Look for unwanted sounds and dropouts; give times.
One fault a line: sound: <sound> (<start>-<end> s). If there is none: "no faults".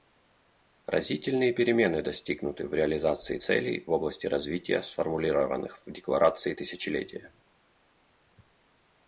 no faults